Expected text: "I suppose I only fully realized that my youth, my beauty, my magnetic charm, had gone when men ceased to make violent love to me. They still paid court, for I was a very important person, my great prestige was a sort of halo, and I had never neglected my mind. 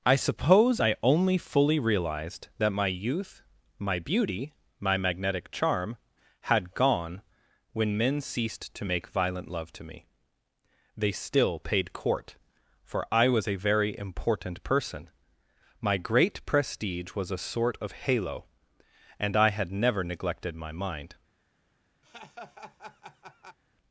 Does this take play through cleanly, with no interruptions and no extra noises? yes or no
no